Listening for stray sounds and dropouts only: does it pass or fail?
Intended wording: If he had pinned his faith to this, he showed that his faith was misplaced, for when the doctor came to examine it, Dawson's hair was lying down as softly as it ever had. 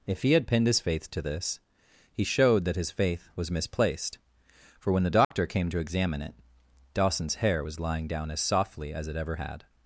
fail